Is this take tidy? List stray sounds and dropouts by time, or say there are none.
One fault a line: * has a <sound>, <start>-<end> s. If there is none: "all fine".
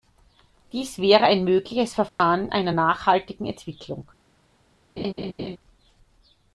* has a dropout, 2.1-2.2 s
* has a laugh, 5.0-5.6 s